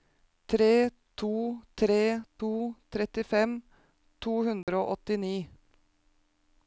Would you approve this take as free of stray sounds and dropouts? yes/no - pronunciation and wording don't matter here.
no